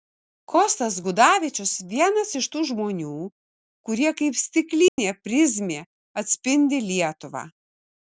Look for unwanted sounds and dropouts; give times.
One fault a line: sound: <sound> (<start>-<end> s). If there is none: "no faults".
sound: dropout (4.9-5.0 s)